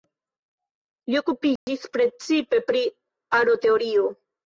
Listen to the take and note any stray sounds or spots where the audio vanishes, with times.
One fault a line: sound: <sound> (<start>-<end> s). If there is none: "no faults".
sound: dropout (1.6-1.7 s)